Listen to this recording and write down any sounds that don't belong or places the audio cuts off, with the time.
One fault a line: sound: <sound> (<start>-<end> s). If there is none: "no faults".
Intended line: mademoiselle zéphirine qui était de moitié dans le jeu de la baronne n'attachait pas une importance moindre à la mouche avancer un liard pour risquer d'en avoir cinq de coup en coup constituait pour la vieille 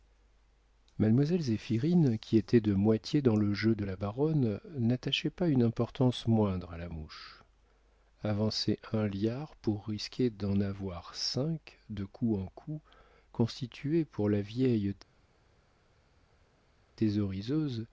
no faults